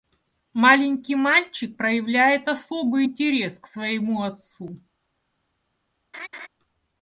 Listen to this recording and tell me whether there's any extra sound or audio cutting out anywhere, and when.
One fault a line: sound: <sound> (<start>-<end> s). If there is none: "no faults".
sound: laugh (6.1-6.5 s)